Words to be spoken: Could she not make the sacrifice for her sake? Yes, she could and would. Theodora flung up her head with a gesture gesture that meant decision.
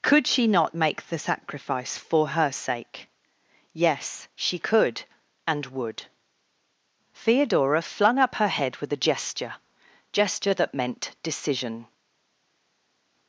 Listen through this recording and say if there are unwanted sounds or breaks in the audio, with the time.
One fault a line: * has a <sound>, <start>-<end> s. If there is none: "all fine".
all fine